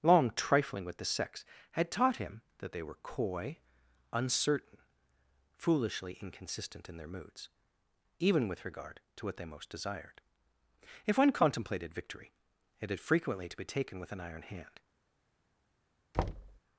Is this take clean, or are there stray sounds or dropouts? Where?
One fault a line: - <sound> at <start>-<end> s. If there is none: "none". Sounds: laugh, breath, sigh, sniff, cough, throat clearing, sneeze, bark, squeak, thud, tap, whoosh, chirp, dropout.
- thud at 16.1-16.6 s